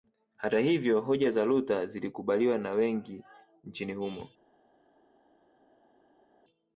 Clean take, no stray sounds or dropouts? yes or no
yes